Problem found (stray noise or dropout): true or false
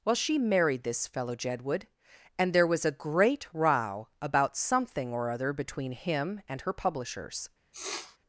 true